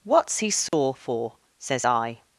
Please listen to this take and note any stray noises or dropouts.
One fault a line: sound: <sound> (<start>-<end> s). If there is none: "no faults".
sound: dropout (0.7-0.7 s)